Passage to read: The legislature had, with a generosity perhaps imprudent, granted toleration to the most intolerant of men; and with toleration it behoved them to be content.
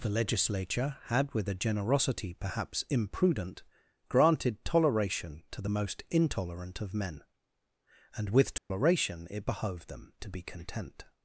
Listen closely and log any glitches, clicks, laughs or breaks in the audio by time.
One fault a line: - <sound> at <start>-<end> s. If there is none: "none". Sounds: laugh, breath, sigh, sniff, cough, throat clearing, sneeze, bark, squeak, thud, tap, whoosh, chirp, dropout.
- dropout at 8.6-8.7 s